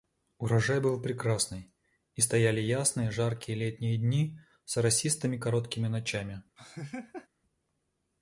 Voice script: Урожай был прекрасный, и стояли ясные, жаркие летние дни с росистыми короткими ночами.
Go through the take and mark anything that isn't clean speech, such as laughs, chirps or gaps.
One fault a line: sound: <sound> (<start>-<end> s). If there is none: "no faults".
sound: laugh (6.6-7.3 s)